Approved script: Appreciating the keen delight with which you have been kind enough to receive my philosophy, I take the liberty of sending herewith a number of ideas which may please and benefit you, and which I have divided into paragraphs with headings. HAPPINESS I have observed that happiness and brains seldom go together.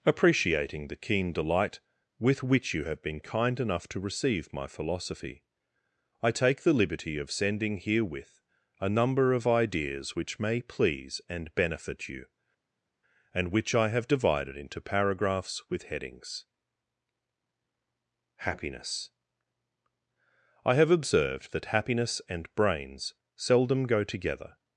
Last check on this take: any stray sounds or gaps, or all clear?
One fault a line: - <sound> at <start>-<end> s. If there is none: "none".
none